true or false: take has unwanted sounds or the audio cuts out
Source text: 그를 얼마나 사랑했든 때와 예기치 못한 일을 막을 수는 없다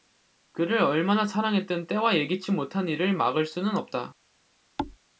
true